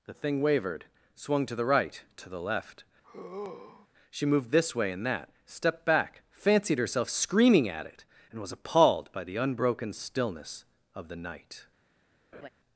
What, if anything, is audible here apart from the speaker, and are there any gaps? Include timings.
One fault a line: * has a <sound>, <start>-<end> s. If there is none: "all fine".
* has a sigh, 3.0-3.9 s
* has a laugh, 12.3-12.5 s